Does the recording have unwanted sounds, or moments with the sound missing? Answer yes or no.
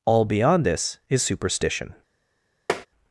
yes